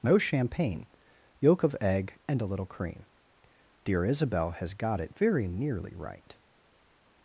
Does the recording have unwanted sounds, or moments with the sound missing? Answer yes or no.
no